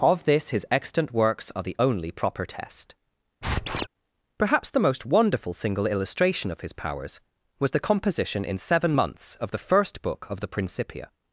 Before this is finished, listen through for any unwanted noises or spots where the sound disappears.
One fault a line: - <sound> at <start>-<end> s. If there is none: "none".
- squeak at 3.4-3.9 s